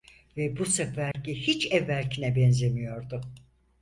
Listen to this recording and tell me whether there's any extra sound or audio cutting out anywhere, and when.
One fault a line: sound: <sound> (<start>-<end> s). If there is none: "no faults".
sound: dropout (1.1-1.1 s)